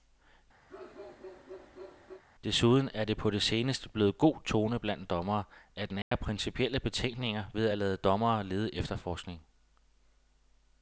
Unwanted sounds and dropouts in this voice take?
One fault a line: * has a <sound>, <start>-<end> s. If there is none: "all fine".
* has a bark, 0.7-2.2 s
* has a dropout, 6.0-6.1 s